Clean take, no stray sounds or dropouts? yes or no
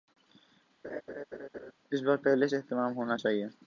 no